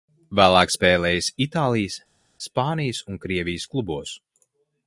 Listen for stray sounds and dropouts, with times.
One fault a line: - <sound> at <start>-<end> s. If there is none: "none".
none